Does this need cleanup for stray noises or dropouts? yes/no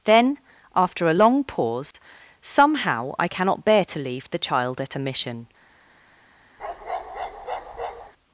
yes